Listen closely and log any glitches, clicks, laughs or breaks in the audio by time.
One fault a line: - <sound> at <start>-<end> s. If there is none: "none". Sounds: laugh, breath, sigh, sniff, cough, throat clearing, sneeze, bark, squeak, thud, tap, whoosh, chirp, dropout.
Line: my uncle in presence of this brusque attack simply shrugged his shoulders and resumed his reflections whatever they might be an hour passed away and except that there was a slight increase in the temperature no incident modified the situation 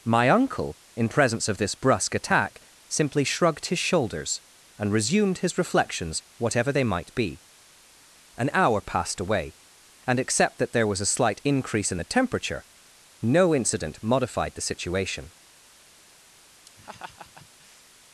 - laugh at 16.7-17.8 s